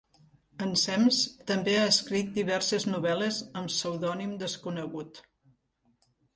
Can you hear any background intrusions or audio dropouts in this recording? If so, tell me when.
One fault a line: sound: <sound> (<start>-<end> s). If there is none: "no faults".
no faults